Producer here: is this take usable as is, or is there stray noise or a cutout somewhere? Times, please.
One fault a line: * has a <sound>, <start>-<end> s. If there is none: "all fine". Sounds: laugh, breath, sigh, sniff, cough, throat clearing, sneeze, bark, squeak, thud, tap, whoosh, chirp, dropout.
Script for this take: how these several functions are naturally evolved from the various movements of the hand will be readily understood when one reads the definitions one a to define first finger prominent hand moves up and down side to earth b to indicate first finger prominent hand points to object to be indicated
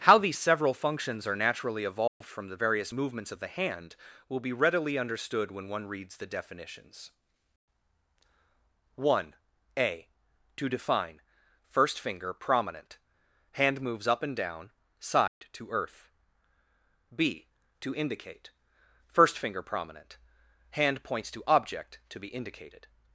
* has a dropout, 2.1-2.2 s
* has a dropout, 15.3-15.4 s